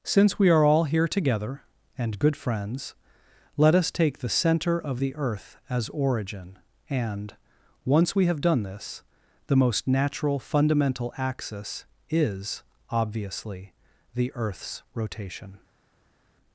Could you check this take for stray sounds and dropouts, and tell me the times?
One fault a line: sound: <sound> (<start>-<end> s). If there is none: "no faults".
no faults